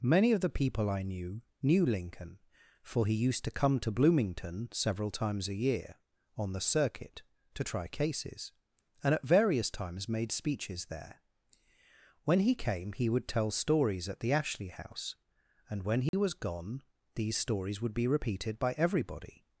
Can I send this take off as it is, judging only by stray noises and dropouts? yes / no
no